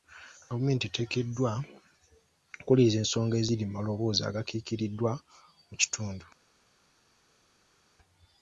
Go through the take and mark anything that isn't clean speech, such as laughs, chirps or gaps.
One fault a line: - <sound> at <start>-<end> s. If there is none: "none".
none